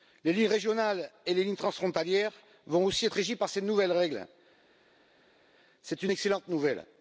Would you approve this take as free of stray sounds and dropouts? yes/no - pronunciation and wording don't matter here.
yes